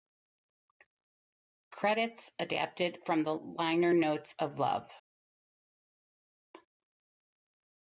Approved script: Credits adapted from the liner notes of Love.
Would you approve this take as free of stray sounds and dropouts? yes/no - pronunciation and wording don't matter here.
yes